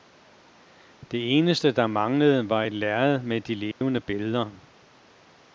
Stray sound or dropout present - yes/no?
yes